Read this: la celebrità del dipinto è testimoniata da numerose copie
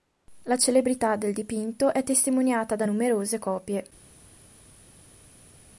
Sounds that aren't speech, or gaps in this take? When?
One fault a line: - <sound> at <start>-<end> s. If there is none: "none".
none